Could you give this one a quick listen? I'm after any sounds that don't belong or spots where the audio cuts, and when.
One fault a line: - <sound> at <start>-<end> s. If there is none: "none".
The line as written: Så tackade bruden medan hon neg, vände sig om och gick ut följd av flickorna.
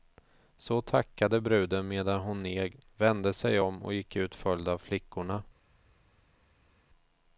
none